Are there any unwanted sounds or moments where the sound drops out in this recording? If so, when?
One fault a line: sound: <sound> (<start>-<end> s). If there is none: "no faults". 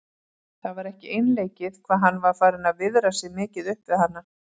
no faults